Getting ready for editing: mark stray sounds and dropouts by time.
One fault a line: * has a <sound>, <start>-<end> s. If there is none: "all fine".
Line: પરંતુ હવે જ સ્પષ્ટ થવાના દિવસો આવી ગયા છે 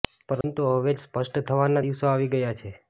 * has a dropout, 0.4-0.4 s